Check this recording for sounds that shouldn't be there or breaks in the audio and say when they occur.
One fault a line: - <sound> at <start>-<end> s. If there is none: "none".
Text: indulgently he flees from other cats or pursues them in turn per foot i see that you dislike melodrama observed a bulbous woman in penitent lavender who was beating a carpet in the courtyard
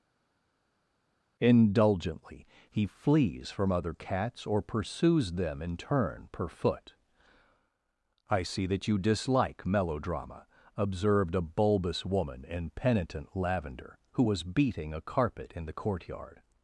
none